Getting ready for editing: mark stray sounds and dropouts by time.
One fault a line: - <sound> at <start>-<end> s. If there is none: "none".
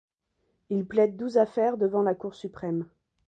none